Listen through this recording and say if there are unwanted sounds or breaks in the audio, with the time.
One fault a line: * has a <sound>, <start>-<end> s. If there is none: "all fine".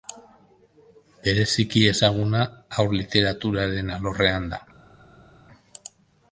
all fine